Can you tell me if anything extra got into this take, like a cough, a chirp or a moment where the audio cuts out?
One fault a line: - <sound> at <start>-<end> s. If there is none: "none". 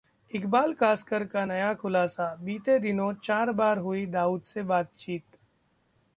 none